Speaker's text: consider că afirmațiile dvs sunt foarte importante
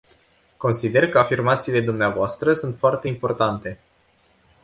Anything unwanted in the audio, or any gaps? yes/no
no